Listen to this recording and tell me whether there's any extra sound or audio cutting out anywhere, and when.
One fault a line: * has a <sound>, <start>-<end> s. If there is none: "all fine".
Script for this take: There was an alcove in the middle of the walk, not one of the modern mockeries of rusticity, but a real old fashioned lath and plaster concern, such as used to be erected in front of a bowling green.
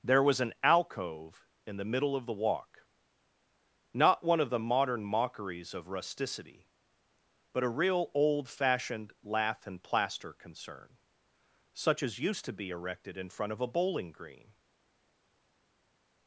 all fine